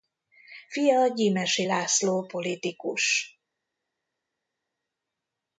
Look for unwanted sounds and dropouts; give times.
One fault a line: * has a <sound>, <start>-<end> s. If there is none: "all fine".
all fine